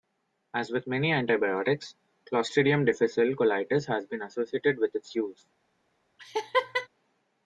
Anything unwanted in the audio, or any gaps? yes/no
yes